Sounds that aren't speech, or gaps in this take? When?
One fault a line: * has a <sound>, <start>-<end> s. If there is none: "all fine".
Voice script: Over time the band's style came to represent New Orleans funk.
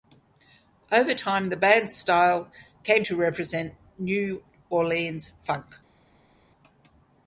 all fine